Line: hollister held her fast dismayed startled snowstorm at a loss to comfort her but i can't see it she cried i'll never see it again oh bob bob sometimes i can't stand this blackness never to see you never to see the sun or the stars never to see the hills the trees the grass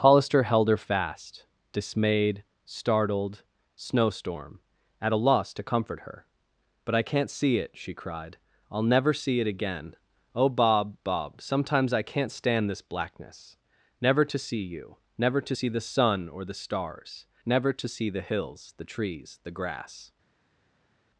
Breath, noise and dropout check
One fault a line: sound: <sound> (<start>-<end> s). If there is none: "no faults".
no faults